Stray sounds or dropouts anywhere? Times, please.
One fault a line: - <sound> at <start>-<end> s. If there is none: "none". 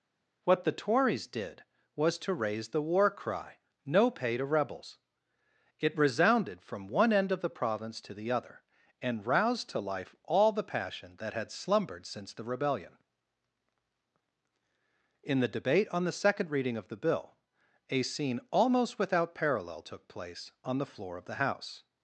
none